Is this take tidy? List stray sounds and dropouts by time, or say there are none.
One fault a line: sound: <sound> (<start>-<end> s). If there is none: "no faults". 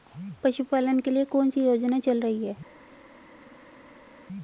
no faults